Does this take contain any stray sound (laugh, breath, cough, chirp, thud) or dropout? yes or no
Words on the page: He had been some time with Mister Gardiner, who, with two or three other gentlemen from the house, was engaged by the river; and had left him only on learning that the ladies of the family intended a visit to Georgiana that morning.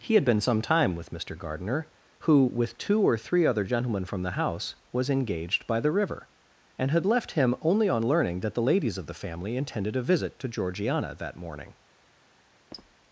yes